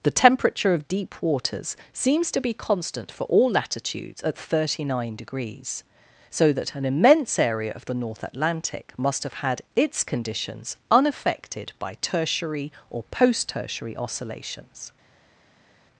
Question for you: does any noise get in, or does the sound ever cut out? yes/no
no